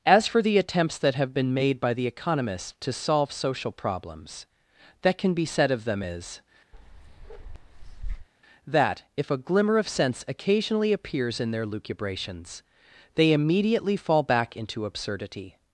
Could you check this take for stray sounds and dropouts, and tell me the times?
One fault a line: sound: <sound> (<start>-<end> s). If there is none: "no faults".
sound: bark (6.7-8.3 s)